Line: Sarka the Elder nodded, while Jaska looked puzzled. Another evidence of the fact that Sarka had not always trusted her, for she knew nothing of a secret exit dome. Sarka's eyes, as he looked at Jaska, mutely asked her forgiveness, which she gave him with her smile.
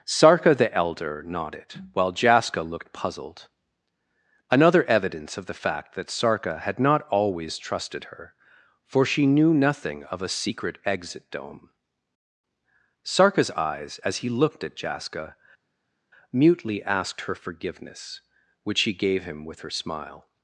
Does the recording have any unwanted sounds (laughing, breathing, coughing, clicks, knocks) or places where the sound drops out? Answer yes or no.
no